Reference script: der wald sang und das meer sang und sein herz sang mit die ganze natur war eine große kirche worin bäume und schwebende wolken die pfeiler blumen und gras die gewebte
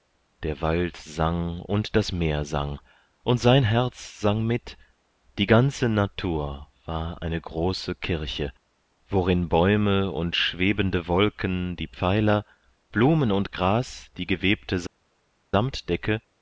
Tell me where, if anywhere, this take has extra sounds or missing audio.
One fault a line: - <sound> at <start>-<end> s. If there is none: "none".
none